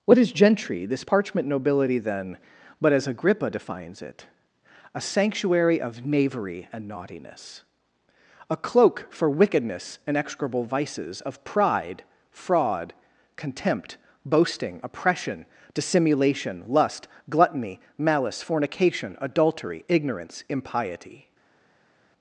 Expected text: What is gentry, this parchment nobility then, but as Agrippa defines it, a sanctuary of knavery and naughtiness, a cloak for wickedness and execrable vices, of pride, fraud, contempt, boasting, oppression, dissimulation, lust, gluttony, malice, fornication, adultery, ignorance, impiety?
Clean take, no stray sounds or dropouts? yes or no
yes